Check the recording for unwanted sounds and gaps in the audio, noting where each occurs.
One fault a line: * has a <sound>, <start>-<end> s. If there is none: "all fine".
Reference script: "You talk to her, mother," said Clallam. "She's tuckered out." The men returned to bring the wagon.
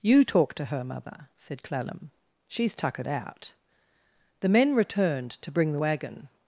all fine